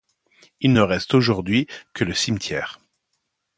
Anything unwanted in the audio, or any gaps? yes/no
no